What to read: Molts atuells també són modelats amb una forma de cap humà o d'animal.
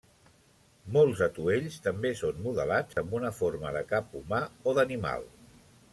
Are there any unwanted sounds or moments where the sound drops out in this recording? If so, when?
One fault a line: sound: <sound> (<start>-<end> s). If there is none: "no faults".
sound: dropout (2.9-3.0 s)